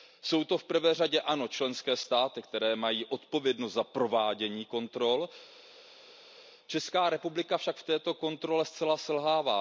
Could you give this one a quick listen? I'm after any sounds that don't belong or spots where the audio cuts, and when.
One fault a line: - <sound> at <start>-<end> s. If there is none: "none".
none